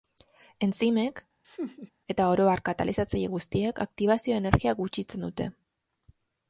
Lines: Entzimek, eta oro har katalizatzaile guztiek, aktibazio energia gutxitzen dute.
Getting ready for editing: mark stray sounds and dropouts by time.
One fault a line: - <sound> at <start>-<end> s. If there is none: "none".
- laugh at 1.4-1.9 s